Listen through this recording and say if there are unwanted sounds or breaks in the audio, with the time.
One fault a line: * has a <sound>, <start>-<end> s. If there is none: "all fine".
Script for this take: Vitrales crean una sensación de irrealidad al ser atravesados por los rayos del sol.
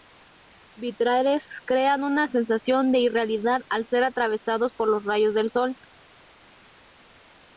all fine